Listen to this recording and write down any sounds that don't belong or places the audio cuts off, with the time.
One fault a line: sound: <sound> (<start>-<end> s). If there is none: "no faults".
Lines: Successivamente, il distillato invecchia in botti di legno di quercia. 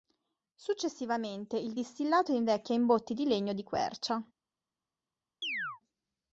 sound: chirp (5.4-5.8 s)